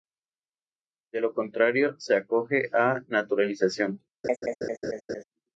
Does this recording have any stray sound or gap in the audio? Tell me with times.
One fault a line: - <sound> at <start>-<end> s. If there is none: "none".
- laugh at 4.2-5.2 s